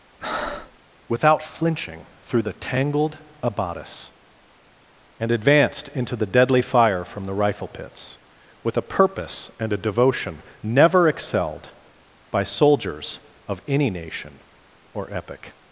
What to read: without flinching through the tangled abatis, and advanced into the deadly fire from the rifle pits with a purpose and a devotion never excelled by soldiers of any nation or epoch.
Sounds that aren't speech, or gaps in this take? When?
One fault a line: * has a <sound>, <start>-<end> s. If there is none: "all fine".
* has a breath, 0.2-0.8 s